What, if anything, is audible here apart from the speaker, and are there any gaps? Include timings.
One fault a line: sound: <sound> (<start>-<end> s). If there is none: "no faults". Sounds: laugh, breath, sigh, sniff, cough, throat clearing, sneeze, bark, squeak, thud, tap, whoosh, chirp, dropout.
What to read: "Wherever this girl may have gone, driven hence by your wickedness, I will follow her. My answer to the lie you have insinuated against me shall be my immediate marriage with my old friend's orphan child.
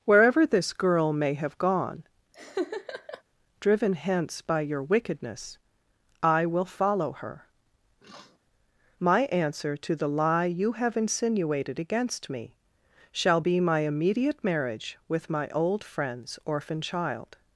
sound: laugh (2.3-3.2 s)
sound: sniff (8.0-8.4 s)